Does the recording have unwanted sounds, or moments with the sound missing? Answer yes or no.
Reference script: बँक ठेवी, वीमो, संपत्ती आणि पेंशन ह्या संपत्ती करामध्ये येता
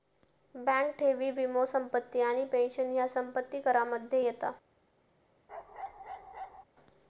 yes